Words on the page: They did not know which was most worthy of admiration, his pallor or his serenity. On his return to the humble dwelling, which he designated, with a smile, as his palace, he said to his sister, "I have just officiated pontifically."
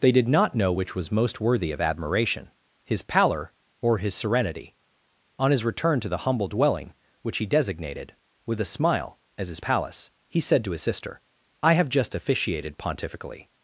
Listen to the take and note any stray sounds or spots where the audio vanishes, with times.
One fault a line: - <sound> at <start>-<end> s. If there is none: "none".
none